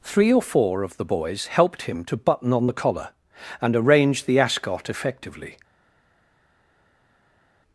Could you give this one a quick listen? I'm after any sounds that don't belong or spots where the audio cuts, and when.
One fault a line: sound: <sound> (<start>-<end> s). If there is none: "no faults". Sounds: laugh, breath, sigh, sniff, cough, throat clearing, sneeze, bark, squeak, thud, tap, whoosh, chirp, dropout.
no faults